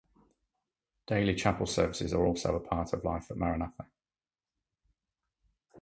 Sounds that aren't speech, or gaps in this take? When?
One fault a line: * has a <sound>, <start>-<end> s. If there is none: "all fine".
all fine